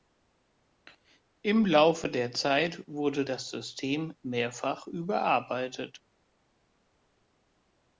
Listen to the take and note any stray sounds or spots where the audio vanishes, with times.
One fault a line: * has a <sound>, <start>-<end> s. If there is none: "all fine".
all fine